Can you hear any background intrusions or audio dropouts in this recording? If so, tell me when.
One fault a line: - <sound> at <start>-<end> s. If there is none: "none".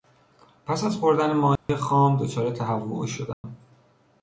- dropout at 1.6-1.7 s
- dropout at 3.3-3.4 s